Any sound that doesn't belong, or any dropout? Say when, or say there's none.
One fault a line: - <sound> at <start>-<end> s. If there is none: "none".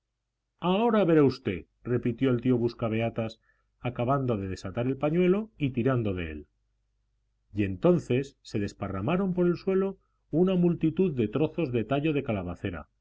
none